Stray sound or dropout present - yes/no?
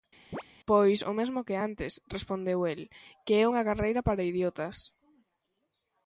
yes